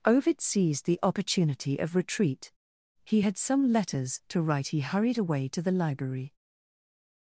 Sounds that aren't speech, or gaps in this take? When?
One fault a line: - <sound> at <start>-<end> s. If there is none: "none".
none